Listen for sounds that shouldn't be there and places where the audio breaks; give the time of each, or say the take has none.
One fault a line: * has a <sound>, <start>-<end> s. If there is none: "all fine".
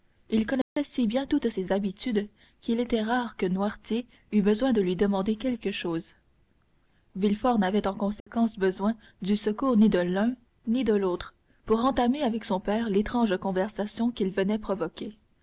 * has a dropout, 0.6-0.8 s
* has a dropout, 8.2-8.3 s